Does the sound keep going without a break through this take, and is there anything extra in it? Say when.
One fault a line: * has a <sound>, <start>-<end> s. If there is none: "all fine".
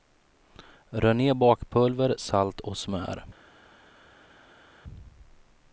all fine